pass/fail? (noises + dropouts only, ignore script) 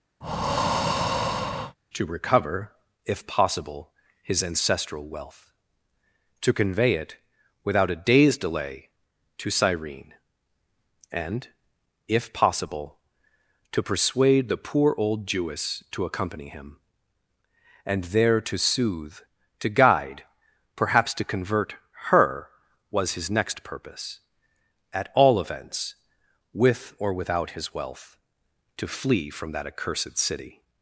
fail